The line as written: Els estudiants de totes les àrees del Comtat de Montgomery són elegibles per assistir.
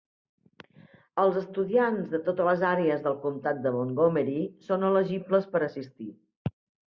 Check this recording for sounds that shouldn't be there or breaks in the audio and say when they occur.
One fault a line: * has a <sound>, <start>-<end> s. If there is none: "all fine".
all fine